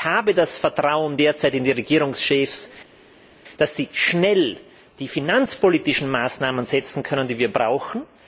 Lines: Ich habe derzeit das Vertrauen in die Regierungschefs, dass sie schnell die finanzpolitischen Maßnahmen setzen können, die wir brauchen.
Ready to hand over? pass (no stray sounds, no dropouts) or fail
pass